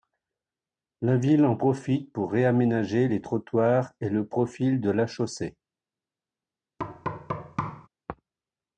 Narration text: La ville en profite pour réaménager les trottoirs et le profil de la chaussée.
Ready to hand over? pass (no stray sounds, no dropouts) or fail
fail